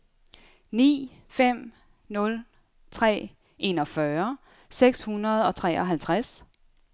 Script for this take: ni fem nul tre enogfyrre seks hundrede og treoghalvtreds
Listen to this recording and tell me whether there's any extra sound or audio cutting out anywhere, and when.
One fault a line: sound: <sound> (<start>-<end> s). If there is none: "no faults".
no faults